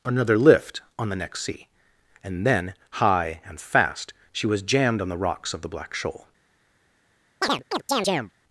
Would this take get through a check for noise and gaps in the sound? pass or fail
fail